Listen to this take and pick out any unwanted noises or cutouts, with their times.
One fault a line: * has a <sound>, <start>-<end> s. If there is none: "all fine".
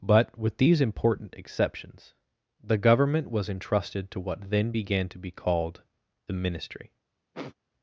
* has a sniff, 7.3-7.6 s